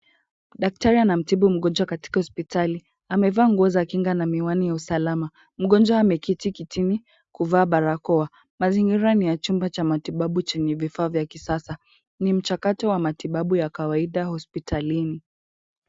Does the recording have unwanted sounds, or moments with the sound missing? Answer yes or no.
no